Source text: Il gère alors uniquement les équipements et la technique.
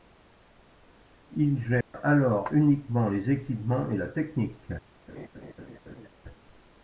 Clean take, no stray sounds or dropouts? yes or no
no